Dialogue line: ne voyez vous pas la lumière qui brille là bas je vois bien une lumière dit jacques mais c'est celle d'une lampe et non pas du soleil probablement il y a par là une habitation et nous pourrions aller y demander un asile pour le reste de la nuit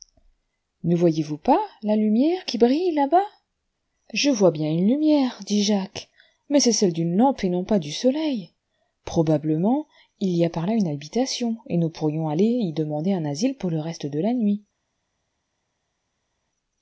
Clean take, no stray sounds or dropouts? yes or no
yes